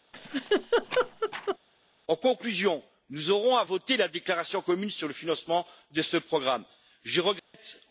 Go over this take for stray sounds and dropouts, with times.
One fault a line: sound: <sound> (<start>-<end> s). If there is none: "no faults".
sound: laugh (0.1-1.6 s)
sound: dropout (7.4-7.5 s)